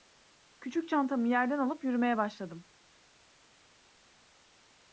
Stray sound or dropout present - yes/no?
no